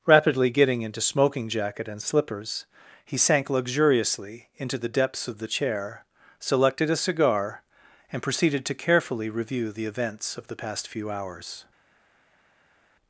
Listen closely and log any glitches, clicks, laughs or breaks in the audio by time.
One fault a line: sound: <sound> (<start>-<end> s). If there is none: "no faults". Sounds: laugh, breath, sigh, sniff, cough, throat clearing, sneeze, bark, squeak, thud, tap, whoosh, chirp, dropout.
no faults